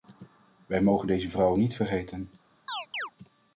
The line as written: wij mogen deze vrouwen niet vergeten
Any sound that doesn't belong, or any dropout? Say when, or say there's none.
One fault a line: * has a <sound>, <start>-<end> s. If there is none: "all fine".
* has a chirp, 2.7-3.1 s